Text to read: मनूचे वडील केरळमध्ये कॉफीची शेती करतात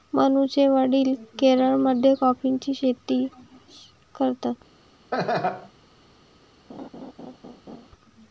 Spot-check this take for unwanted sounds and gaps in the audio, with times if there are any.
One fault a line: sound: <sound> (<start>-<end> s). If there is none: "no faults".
sound: laugh (5.1-5.7 s)
sound: laugh (6.7-7.9 s)